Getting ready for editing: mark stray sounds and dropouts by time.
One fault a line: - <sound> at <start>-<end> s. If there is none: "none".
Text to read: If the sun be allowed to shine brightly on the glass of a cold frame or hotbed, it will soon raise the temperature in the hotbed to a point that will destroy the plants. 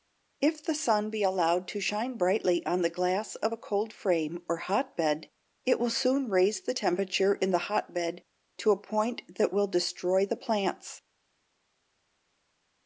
none